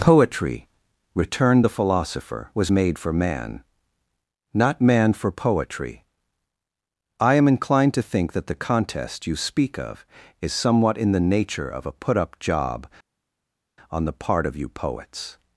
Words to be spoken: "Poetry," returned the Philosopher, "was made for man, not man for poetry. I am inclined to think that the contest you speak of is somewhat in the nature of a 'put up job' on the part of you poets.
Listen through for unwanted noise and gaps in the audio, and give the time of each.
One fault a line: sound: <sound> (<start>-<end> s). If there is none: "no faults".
no faults